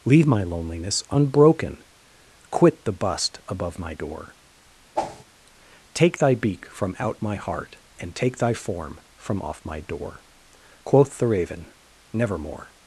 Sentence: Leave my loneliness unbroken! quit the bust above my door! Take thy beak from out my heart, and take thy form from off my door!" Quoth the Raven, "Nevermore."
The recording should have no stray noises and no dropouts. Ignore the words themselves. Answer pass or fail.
fail